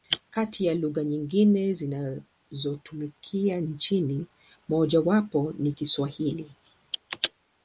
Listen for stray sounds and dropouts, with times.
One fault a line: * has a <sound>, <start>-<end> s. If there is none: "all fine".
all fine